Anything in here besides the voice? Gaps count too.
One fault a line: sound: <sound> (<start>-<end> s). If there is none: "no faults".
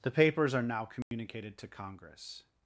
sound: dropout (1.0-1.1 s)